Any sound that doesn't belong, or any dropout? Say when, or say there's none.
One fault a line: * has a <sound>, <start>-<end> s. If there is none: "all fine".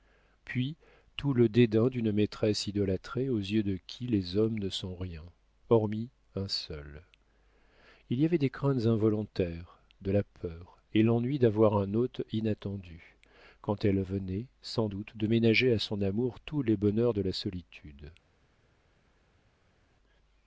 all fine